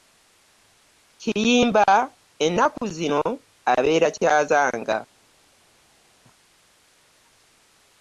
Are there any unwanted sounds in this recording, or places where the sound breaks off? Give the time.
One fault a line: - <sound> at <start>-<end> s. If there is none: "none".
none